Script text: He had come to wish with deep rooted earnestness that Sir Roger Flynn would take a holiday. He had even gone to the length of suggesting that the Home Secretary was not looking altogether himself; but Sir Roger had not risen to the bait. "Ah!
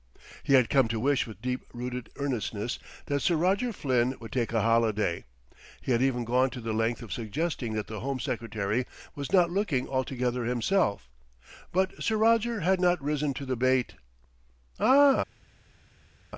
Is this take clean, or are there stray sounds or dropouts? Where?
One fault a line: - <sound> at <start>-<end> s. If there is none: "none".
none